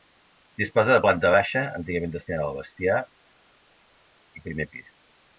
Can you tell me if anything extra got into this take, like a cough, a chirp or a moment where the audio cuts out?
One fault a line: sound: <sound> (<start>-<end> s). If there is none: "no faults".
no faults